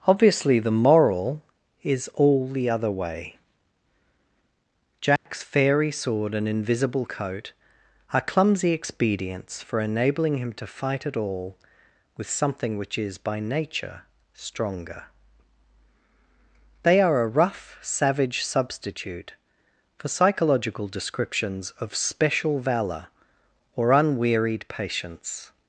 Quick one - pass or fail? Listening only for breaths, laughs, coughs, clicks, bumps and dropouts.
fail